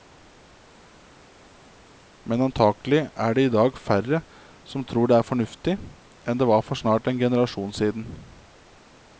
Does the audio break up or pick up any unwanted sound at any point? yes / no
no